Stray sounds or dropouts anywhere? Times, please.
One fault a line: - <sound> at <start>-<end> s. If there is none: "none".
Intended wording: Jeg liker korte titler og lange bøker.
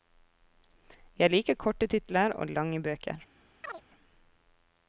- chirp at 3.6-3.8 s